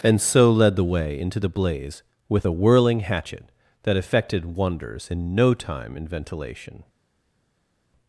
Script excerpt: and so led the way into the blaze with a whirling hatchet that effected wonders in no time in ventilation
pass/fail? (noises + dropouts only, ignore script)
pass